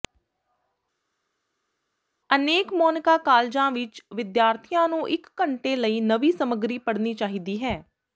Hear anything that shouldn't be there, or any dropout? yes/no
no